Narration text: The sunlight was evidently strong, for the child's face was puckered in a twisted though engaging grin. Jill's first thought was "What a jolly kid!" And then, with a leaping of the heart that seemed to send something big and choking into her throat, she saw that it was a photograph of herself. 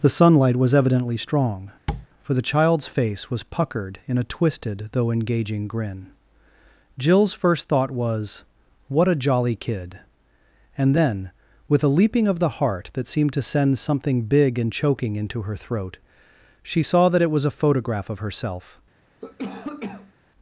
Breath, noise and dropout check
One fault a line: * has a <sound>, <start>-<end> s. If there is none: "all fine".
* has a tap, 1.9-2.1 s
* has a cough, 19.2-20.1 s